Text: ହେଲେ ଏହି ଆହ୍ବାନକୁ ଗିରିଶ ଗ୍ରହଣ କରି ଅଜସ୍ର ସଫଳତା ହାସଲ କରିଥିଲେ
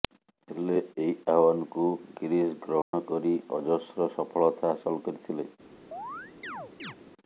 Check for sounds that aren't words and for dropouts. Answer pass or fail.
fail